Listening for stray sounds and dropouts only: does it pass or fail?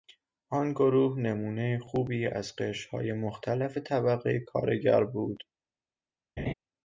fail